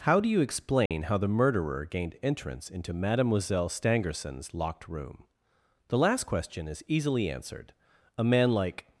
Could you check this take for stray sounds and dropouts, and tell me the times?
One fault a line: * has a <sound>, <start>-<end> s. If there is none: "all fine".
* has a dropout, 0.9-0.9 s